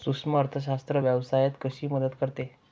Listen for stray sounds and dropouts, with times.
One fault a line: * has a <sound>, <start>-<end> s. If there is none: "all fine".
all fine